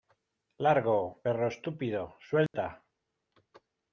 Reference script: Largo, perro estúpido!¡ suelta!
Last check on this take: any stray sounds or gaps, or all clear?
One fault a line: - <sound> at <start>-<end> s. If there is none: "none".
- dropout at 2.5-2.5 s